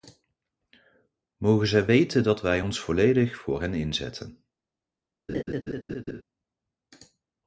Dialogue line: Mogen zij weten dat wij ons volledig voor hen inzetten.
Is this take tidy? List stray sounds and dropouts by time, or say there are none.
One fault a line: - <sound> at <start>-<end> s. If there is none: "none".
- laugh at 5.3-6.2 s